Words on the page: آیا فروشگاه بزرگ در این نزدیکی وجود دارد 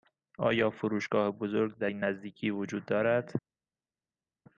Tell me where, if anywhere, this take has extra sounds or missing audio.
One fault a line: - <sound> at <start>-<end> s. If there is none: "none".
none